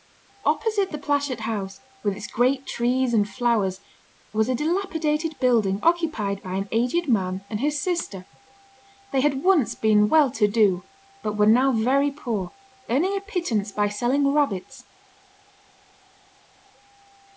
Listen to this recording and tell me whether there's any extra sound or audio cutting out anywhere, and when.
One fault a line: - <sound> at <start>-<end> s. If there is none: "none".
none